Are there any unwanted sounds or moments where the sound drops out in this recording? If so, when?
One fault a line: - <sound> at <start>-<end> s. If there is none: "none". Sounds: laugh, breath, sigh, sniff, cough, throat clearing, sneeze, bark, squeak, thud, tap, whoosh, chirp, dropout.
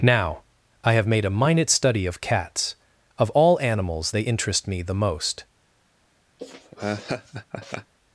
- laugh at 6.4-7.9 s